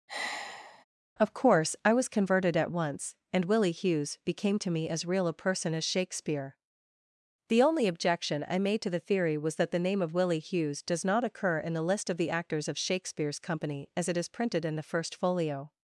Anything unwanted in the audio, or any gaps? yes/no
yes